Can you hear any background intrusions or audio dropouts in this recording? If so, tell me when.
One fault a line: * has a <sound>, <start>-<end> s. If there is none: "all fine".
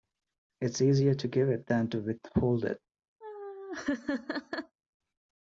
* has a laugh, 3.2-4.8 s